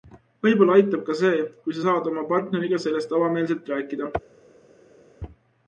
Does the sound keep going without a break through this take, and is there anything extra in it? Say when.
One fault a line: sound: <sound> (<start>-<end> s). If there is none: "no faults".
no faults